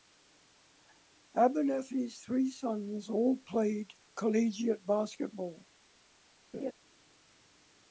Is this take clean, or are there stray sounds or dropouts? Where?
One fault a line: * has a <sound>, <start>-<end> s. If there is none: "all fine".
* has a laugh, 6.5-6.7 s